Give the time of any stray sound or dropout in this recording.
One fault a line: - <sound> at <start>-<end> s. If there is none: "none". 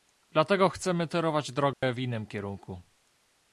- dropout at 1.7-1.8 s